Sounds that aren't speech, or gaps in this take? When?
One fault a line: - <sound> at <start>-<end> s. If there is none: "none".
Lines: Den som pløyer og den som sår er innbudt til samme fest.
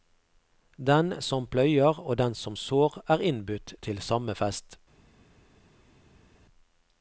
none